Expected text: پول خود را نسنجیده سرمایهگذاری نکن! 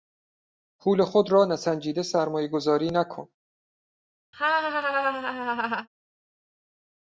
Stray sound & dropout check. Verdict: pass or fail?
fail